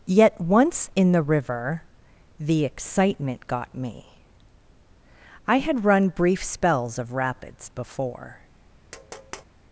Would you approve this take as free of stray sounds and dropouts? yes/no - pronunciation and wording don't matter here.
no